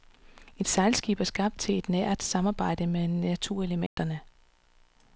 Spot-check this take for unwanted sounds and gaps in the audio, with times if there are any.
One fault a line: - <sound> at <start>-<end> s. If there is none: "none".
- dropout at 3.9-4.0 s